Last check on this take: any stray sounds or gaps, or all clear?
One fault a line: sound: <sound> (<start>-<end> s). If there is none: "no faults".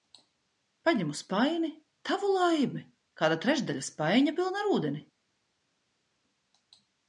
no faults